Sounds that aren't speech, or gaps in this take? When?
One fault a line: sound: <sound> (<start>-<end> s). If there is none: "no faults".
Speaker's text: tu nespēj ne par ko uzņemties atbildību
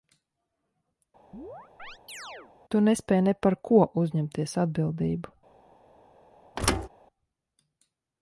sound: chirp (1.3-2.5 s)
sound: thud (6.6-6.9 s)